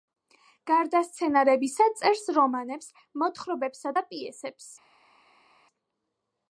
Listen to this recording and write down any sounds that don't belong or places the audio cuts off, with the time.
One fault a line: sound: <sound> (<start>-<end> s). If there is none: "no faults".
no faults